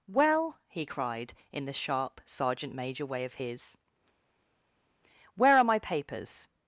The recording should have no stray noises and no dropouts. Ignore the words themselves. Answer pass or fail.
pass